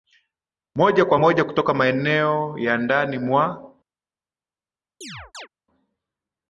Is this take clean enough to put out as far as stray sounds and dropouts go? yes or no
no